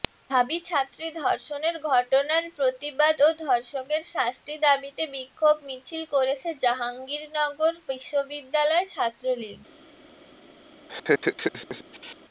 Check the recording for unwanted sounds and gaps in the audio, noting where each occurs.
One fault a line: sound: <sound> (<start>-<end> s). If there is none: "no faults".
sound: laugh (10.9-12.2 s)